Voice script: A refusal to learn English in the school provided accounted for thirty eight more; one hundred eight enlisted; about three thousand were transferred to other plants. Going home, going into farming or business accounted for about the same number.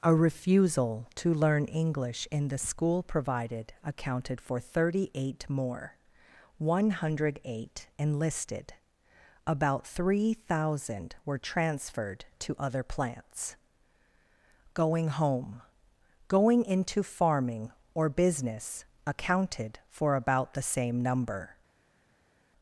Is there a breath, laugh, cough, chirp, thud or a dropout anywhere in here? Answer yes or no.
no